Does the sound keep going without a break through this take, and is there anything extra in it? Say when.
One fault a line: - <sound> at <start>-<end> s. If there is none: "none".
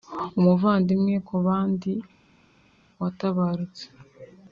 none